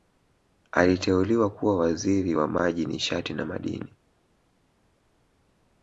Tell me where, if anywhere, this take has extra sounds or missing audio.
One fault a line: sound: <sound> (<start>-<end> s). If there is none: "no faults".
no faults